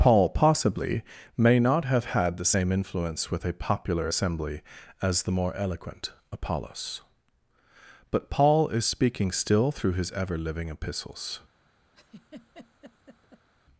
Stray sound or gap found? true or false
true